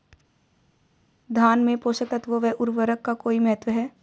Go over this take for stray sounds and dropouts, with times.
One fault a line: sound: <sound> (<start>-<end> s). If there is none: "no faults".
no faults